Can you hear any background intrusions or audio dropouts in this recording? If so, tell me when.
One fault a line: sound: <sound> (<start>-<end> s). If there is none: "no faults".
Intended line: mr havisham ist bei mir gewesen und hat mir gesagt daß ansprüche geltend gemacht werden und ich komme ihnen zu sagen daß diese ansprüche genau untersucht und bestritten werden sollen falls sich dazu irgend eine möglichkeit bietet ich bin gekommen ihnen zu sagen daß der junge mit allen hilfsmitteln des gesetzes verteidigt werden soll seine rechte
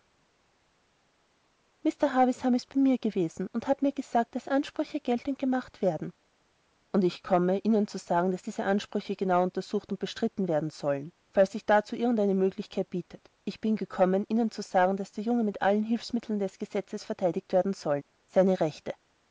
no faults